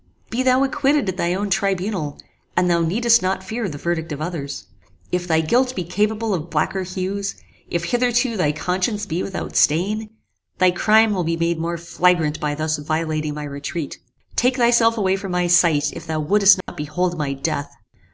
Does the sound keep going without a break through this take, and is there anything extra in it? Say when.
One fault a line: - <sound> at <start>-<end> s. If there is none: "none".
- dropout at 16.6-16.7 s